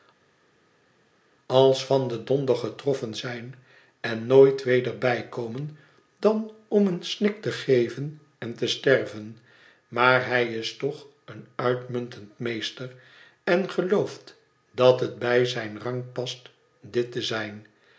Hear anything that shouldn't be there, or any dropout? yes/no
no